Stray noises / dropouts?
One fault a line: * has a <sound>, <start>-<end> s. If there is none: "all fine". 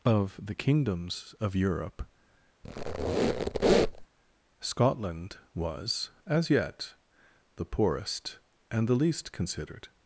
* has a squeak, 2.6-4.1 s